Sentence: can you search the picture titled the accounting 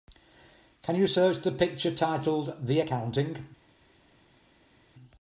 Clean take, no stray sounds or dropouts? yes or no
yes